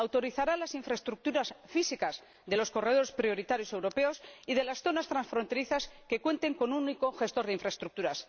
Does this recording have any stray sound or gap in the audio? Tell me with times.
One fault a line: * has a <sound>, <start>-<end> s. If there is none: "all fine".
all fine